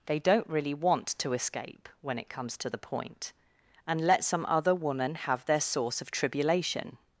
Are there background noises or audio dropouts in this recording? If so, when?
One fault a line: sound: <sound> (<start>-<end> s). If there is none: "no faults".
no faults